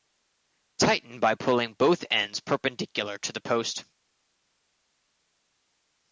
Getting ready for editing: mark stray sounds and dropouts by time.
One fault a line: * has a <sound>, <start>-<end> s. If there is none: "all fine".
all fine